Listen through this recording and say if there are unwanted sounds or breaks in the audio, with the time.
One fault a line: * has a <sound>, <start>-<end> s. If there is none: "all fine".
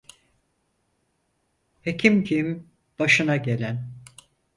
all fine